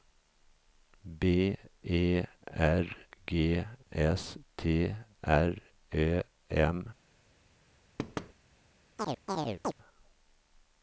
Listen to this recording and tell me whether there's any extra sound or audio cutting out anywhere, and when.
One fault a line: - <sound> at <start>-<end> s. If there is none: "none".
- thud at 8.0-8.3 s
- chirp at 9.0-9.7 s